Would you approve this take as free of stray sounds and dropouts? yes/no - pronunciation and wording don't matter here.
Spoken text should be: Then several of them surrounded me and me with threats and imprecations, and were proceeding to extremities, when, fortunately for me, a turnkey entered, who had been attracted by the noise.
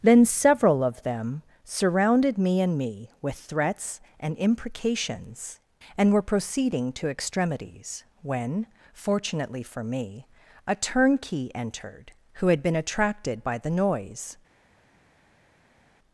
yes